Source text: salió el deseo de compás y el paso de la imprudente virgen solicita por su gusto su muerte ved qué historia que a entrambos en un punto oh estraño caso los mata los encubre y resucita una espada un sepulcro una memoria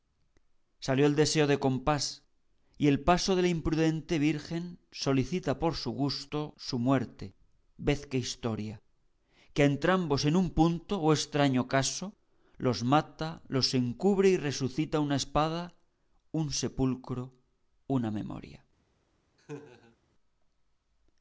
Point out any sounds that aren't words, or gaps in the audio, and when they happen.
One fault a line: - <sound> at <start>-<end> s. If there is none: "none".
- laugh at 19.4-20.0 s